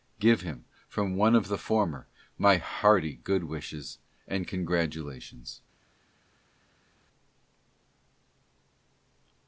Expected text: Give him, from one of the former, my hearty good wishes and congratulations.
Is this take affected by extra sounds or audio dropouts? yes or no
no